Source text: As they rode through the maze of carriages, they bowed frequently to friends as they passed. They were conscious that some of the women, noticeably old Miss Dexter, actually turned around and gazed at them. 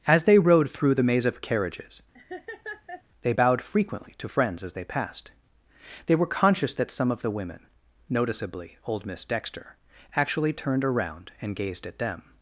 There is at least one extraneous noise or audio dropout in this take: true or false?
true